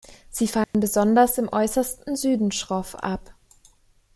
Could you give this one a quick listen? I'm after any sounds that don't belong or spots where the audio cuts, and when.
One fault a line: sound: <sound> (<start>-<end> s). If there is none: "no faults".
sound: dropout (0.6-0.7 s)